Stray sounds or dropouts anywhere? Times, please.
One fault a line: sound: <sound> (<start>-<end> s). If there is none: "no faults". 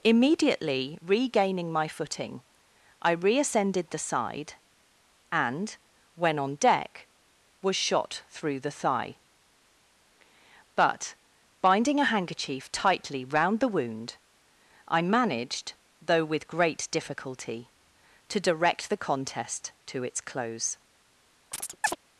sound: chirp (21.5-22.0 s)